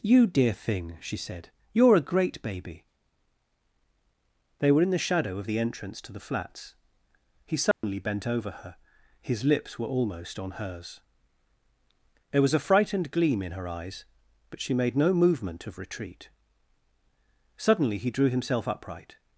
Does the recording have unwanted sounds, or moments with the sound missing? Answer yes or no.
yes